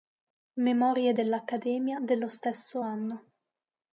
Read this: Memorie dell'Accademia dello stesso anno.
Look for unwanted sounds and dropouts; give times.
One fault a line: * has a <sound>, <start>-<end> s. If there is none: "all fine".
all fine